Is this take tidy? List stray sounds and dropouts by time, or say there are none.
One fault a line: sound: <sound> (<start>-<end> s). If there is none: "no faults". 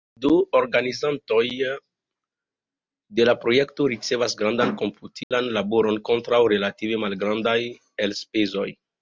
sound: dropout (5.2-5.3 s)